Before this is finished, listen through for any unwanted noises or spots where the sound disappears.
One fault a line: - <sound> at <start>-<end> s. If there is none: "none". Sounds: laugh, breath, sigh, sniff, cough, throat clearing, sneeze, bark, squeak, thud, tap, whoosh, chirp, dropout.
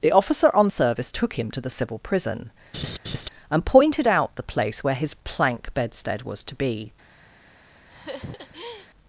- laugh at 2.7-3.3 s
- laugh at 7.9-8.9 s